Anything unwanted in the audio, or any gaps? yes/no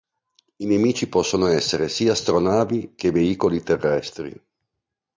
no